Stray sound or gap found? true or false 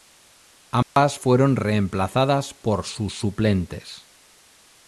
true